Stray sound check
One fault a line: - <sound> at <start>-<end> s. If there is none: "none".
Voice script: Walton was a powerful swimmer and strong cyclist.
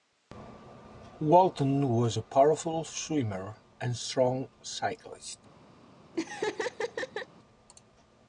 - laugh at 6.1-7.3 s